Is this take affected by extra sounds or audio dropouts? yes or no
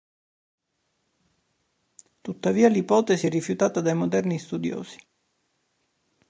no